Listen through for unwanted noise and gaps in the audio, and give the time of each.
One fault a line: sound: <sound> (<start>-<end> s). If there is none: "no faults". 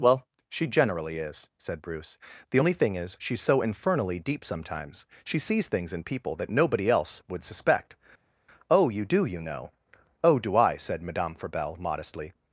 no faults